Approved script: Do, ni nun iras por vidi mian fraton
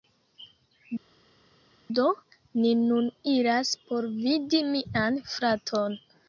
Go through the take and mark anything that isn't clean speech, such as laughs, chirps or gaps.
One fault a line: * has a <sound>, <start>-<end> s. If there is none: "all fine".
all fine